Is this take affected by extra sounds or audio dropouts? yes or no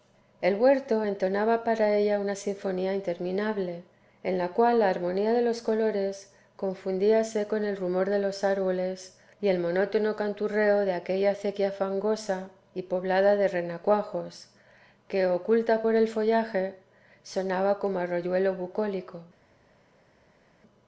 no